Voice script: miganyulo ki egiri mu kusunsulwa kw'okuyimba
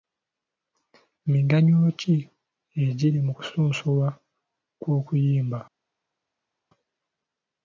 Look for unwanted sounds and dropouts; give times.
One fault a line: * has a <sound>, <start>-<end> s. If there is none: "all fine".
all fine